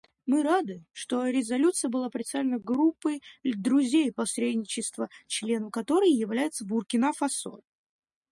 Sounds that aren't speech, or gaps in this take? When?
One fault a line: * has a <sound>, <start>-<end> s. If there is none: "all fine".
all fine